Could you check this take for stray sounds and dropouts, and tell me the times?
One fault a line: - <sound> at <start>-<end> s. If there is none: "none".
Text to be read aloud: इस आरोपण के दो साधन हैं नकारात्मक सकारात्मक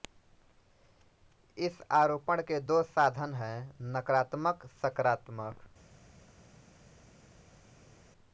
none